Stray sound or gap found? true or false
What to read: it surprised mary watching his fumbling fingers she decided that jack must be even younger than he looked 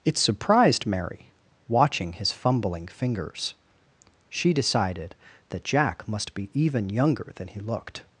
false